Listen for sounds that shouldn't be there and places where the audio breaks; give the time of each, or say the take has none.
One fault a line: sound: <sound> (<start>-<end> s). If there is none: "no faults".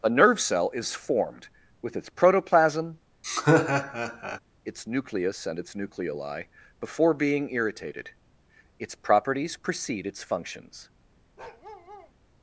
sound: laugh (3.2-4.4 s)
sound: bark (11.4-12.1 s)